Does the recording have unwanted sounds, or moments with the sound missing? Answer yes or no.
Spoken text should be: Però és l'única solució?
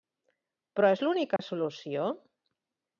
yes